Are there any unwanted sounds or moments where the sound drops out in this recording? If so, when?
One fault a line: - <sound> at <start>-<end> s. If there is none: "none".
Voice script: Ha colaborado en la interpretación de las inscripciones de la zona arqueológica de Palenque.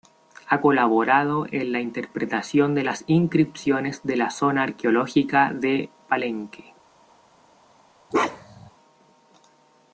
- bark at 8.1-8.7 s